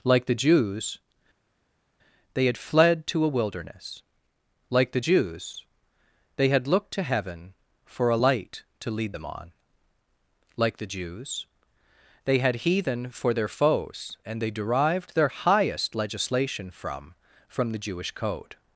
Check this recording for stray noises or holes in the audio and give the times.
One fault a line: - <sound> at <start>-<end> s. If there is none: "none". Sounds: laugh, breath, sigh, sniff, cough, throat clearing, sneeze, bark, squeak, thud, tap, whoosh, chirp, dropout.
none